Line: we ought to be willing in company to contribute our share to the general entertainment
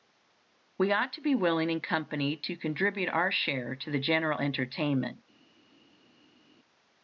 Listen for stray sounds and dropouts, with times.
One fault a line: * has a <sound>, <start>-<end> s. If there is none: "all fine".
all fine